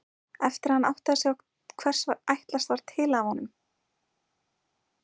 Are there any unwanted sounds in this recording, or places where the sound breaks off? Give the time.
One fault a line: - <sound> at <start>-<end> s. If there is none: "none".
none